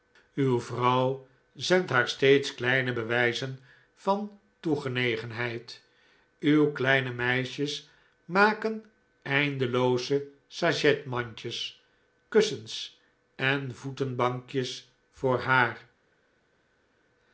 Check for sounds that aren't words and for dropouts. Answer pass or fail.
pass